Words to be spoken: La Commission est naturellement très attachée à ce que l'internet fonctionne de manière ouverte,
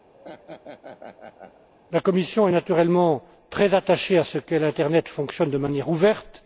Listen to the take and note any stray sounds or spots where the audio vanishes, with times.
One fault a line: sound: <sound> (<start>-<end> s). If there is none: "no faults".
sound: laugh (0.1-1.7 s)